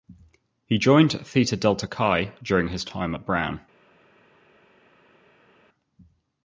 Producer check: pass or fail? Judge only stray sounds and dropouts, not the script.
pass